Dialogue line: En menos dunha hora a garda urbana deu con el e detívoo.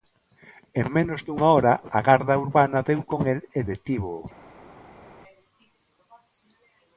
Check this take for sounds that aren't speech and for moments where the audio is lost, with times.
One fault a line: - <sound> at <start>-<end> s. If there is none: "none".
none